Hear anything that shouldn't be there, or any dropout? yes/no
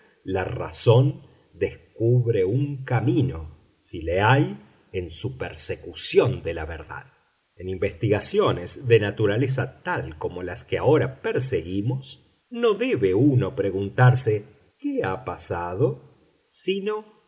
no